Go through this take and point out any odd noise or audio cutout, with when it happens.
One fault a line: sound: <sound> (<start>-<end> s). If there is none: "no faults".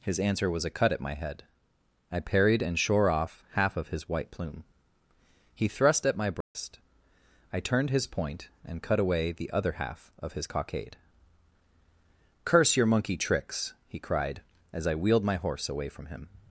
sound: dropout (6.4-6.5 s)